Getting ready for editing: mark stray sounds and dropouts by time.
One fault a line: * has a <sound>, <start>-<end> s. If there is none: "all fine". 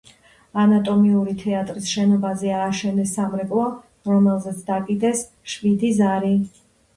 all fine